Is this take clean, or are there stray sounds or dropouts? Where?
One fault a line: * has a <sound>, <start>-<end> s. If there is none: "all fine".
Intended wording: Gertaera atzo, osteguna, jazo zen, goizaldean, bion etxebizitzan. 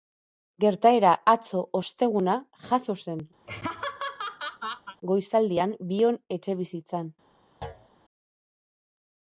* has a laugh, 3.4-5.0 s
* has a thud, 7.6-7.9 s